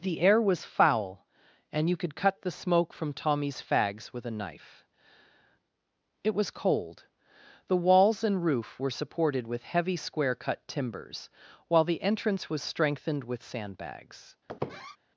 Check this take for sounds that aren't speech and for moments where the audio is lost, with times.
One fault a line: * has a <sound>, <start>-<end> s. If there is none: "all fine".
* has a squeak, 14.5-15.0 s